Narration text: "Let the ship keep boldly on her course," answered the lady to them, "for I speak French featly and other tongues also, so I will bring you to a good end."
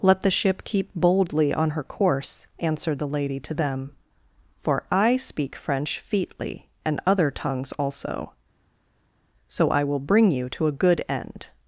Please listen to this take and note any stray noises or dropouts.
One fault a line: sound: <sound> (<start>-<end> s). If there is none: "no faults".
no faults